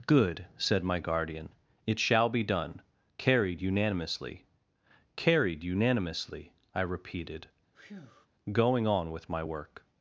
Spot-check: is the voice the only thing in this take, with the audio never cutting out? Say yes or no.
no